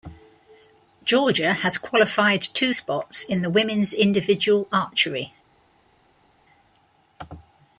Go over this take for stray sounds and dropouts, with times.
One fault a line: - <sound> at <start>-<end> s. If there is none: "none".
none